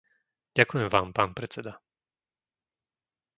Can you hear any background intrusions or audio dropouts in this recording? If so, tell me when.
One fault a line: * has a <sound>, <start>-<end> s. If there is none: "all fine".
all fine